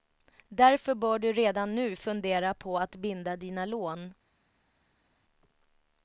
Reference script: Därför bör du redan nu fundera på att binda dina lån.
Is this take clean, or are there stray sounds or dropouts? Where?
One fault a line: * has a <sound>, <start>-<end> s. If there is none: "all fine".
all fine